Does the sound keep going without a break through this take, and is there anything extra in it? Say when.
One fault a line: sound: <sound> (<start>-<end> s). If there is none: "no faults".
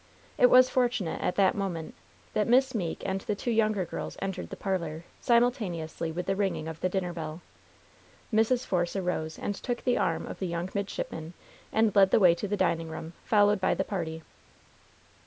no faults